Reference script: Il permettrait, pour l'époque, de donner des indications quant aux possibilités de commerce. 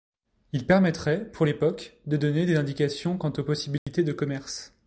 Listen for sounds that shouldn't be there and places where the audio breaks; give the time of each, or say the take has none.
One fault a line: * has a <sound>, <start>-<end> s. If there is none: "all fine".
* has a dropout, 3.8-3.9 s